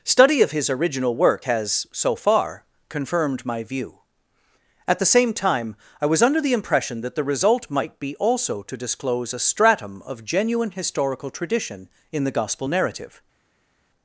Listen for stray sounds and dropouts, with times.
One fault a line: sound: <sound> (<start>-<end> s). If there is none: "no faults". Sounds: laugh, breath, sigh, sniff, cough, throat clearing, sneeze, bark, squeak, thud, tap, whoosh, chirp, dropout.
no faults